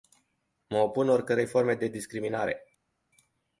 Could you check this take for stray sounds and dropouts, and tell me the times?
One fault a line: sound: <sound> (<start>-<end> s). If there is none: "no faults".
no faults